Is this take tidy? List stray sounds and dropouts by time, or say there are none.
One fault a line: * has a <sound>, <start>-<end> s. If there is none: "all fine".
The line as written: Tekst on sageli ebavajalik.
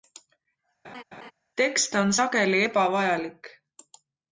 * has a laugh, 0.8-1.3 s